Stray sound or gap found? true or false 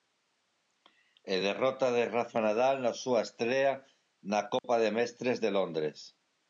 true